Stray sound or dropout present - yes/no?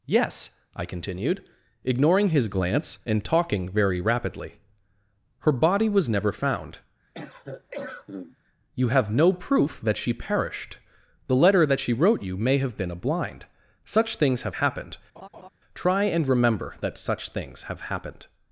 yes